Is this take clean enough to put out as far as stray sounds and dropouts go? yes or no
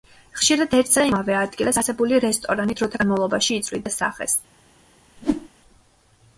no